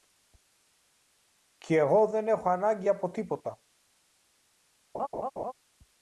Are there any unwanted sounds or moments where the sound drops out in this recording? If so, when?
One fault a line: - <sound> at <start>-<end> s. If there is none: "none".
- laugh at 4.9-5.5 s